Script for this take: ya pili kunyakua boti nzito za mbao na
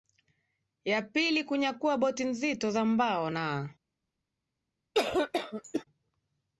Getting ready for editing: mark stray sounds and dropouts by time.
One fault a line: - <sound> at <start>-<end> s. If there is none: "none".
- cough at 4.9-5.8 s